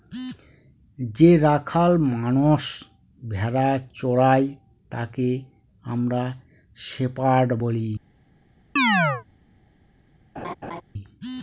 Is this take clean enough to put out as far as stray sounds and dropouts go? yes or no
no